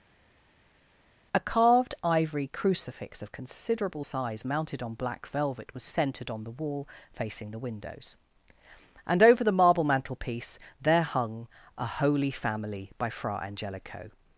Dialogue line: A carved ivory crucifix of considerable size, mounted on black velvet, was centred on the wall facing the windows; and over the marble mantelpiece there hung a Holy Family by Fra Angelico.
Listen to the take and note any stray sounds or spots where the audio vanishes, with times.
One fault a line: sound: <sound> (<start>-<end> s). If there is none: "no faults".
no faults